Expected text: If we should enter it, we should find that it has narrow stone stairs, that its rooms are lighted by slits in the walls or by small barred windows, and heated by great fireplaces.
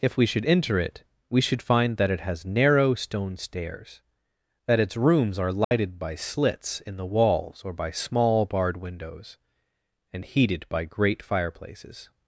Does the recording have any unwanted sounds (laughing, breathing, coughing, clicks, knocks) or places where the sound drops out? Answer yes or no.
yes